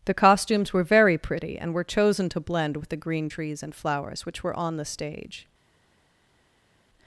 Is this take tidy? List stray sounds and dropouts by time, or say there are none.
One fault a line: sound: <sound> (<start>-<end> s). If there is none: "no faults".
no faults